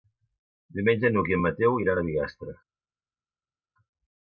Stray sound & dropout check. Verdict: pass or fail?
pass